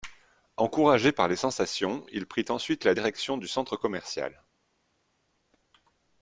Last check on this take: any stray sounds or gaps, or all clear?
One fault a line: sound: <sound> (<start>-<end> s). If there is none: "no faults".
no faults